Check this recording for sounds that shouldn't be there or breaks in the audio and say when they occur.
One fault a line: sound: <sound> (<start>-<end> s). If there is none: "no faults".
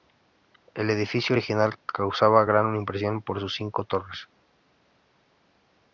no faults